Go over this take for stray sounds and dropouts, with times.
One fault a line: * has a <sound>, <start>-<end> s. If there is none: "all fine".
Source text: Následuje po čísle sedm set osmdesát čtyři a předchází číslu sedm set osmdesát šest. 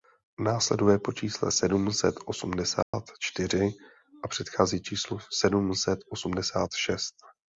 * has a dropout, 2.8-2.9 s